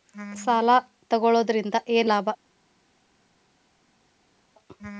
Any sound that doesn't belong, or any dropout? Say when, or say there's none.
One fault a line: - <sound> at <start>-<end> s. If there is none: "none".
none